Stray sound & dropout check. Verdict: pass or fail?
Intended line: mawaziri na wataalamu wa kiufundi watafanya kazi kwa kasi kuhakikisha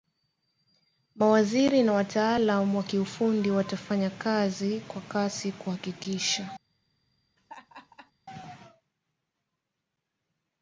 fail